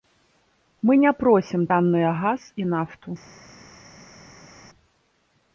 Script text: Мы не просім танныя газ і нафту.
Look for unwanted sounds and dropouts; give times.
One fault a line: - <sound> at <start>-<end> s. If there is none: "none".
none